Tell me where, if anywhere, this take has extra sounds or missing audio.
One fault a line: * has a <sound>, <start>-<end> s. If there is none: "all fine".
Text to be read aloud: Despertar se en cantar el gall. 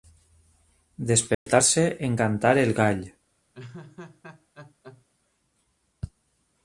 * has a dropout, 1.3-1.5 s
* has a laugh, 3.5-5.1 s